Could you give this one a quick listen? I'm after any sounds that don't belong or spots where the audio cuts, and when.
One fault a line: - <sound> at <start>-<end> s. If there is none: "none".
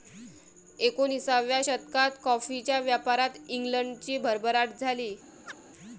- chirp at 5.5-5.6 s